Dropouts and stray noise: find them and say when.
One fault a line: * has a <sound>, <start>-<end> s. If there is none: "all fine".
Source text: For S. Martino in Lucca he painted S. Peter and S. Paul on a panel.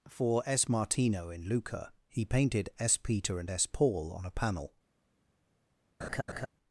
* has a laugh, 6.0-6.5 s